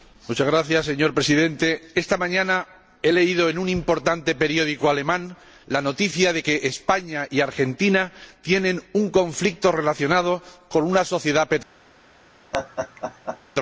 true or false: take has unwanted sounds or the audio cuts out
true